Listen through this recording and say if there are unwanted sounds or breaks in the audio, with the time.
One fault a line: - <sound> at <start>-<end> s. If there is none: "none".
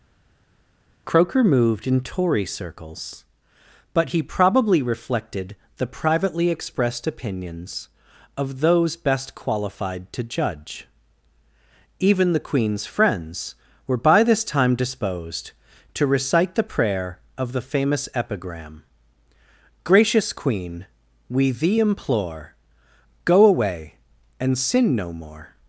none